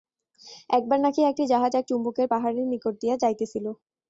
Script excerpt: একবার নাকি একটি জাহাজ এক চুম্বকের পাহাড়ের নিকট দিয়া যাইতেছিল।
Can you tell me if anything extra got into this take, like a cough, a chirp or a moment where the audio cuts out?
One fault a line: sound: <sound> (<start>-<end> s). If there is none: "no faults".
no faults